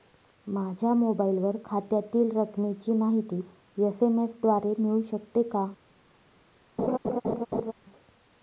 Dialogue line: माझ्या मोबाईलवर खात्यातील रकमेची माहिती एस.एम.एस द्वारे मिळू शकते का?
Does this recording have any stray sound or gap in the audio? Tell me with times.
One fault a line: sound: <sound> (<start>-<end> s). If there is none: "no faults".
sound: laugh (6.8-7.7 s)